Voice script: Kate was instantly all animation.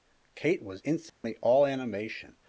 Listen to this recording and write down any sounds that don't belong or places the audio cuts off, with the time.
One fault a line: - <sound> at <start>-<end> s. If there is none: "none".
- dropout at 1.1-1.2 s